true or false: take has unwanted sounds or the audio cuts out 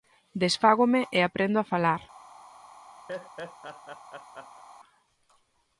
true